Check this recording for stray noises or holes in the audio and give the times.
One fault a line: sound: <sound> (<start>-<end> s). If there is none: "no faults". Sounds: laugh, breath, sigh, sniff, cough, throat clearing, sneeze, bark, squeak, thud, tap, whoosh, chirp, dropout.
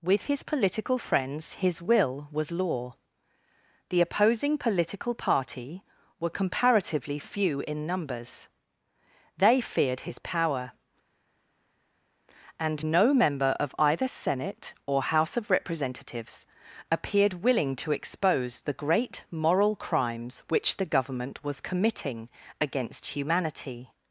no faults